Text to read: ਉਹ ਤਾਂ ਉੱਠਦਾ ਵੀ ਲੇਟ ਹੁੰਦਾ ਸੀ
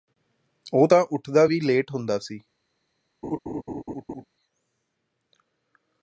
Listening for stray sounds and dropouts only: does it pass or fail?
fail